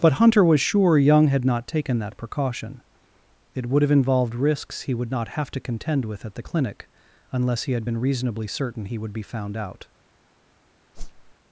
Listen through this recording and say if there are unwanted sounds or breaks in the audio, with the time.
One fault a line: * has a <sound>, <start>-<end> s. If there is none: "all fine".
* has a whoosh, 10.9-11.3 s